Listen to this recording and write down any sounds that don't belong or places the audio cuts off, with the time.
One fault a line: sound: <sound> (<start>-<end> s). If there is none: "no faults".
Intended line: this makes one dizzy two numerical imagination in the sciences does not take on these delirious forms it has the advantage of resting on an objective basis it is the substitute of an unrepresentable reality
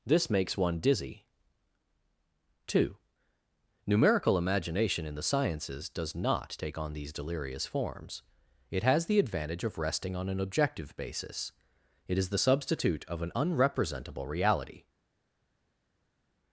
no faults